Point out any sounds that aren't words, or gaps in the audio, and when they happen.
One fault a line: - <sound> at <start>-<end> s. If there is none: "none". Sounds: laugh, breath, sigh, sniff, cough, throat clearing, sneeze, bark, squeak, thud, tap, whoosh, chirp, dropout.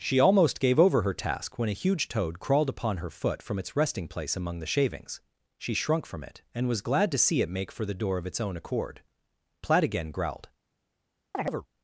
- chirp at 11.3-11.7 s